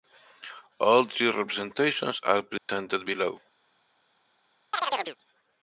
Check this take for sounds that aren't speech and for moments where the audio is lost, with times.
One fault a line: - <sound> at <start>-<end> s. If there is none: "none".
- dropout at 2.6-2.7 s
- chirp at 4.7-5.2 s